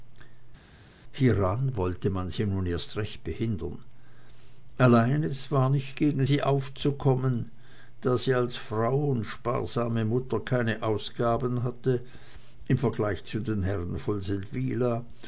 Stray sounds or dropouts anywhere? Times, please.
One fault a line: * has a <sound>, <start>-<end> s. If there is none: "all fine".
all fine